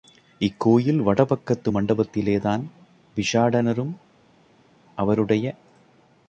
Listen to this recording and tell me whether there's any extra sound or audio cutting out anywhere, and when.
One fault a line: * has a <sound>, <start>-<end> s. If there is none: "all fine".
all fine